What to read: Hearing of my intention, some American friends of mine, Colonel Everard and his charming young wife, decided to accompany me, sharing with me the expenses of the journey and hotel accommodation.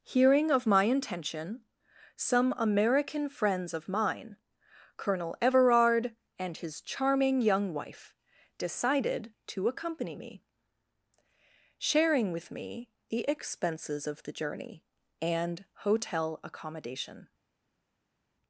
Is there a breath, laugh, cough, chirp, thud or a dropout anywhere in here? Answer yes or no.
no